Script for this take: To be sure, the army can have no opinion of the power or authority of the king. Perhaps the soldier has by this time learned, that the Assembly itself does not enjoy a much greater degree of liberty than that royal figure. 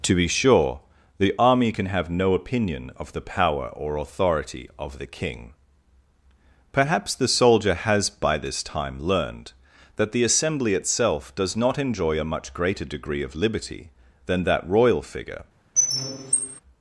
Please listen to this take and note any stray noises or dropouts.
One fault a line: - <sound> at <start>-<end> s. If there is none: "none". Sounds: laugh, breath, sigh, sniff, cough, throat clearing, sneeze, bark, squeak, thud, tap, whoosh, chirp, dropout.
- squeak at 15.8-16.6 s